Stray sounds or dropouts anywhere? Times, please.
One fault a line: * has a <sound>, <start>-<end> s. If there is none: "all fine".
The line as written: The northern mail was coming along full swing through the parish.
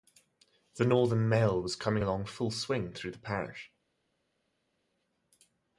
all fine